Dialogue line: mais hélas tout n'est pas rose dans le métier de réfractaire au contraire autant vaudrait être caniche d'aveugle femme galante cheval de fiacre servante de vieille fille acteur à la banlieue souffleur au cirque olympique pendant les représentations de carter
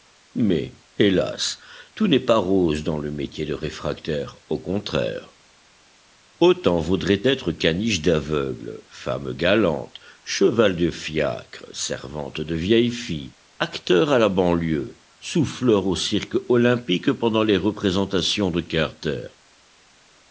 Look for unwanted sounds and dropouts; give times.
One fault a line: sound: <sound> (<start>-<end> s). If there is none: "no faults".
no faults